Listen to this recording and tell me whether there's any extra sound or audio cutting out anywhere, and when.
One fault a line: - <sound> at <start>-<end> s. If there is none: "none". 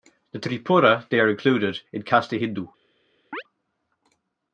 - chirp at 3.3-3.4 s